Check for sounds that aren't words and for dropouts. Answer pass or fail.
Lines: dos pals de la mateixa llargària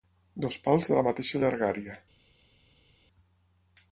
pass